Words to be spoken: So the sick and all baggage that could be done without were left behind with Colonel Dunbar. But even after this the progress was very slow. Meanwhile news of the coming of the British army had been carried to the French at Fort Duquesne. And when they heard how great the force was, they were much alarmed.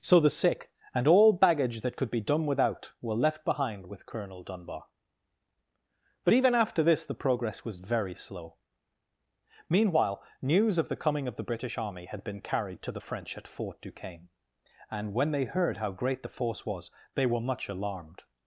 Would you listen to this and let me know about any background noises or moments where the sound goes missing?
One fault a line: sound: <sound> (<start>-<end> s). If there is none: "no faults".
no faults